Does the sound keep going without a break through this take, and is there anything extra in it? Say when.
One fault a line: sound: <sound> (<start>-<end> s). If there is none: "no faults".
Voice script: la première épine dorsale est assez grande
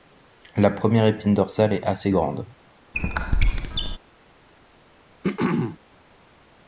sound: squeak (2.9-4.0 s)
sound: throat clearing (5.2-5.8 s)